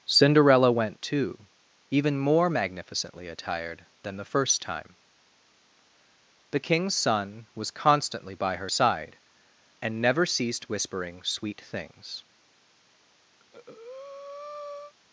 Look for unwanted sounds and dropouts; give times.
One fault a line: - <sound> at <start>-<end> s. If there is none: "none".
- breath at 13.4-14.9 s